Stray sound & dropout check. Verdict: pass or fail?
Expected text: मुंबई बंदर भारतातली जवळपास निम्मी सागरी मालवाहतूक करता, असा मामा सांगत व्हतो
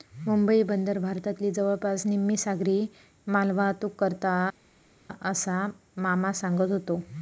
pass